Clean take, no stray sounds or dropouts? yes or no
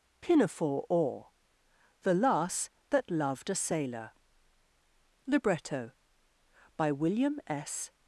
yes